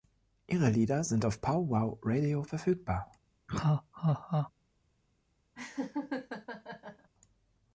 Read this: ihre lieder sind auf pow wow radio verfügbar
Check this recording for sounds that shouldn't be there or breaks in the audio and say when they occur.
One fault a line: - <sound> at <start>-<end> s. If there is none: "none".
- laugh at 3.5-4.5 s
- laugh at 5.5-7.1 s